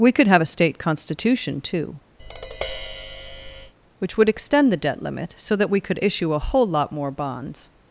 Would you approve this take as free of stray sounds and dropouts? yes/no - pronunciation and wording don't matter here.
no